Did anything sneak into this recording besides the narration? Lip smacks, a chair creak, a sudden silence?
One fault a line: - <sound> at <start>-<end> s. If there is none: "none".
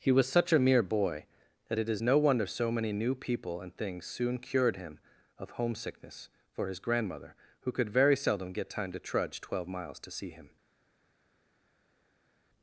none